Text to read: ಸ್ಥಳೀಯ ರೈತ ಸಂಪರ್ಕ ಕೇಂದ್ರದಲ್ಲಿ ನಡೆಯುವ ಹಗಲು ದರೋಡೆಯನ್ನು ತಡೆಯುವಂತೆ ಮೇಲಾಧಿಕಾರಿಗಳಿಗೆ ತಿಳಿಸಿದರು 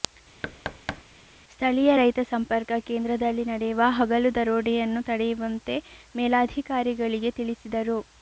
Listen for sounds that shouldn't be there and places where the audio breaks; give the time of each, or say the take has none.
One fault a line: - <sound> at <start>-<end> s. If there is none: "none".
- thud at 0.4-1.0 s